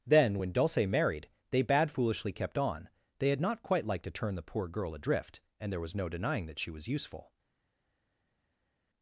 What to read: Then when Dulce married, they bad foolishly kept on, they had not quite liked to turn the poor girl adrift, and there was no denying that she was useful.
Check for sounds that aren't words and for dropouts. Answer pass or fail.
pass